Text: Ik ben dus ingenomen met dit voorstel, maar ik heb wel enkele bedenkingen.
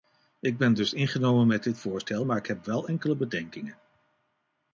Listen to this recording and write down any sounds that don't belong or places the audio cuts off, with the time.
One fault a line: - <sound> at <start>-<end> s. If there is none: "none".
none